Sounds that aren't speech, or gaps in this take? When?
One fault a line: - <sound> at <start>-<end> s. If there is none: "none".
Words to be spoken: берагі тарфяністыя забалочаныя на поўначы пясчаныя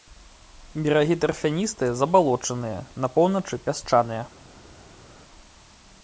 none